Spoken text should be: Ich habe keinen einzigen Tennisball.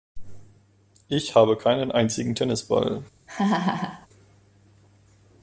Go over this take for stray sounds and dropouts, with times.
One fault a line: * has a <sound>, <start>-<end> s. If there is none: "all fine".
* has a laugh, 3.3-4.1 s